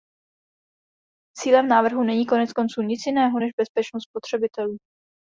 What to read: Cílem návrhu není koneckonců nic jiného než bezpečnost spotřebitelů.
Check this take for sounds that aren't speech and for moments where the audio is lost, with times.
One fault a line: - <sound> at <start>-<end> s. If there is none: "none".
none